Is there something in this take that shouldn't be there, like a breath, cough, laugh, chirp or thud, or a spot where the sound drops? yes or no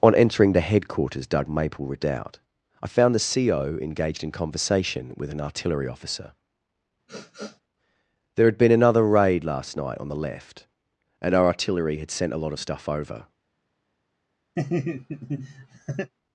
yes